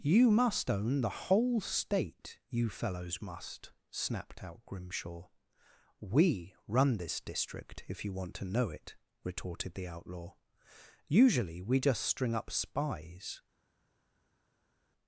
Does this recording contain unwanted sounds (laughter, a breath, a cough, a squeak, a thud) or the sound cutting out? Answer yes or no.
no